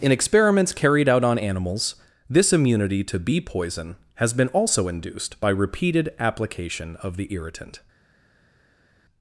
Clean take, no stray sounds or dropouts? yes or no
yes